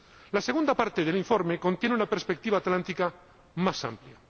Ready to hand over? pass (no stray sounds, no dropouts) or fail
pass